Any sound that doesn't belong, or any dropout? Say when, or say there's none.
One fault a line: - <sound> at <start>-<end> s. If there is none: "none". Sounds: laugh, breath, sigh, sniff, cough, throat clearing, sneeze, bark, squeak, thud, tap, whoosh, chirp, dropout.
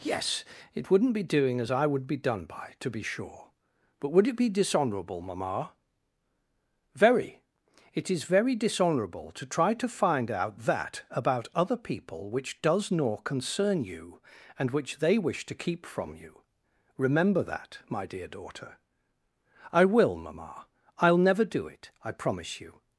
none